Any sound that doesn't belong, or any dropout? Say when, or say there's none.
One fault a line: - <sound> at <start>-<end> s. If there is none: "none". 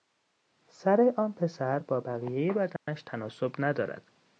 - dropout at 2.8-2.9 s